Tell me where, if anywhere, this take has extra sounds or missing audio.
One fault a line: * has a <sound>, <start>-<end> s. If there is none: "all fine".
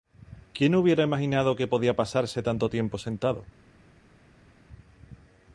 all fine